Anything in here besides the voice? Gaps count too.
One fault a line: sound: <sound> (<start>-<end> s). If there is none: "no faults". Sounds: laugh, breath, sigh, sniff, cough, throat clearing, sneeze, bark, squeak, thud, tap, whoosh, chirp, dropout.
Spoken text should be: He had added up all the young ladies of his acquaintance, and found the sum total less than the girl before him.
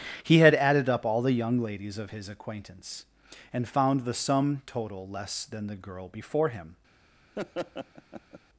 sound: laugh (7.4-8.4 s)